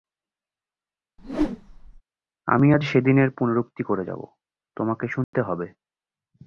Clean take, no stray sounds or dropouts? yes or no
no